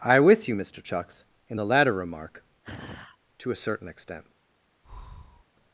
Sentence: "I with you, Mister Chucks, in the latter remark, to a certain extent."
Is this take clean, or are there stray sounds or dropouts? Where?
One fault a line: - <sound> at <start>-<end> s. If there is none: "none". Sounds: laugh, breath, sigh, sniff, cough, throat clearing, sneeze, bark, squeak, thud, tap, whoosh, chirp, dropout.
- sigh at 2.6-3.2 s
- breath at 4.8-5.4 s